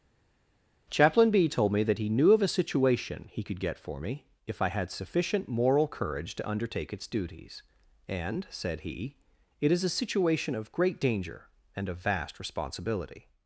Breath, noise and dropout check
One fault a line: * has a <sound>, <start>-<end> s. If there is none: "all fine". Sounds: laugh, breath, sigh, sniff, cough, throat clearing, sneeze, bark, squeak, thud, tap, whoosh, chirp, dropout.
all fine